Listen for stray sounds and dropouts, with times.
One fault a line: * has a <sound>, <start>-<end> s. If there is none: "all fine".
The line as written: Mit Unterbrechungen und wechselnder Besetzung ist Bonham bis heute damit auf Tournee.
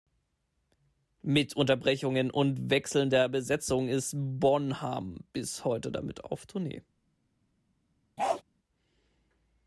* has a bark, 8.2-8.4 s